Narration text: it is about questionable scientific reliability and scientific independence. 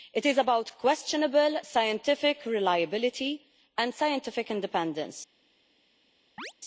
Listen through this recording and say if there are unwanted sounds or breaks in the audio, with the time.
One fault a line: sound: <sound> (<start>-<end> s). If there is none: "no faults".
sound: chirp (6.4-6.5 s)